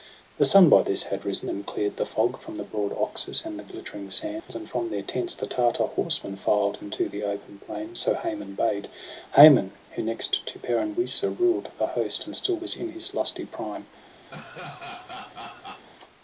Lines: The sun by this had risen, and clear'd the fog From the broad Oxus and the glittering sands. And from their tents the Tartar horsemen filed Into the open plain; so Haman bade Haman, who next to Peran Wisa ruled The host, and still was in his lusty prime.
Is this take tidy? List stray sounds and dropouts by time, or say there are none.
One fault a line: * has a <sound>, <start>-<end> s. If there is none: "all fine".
* has a dropout, 4.4-4.5 s
* has a laugh, 14.3-15.9 s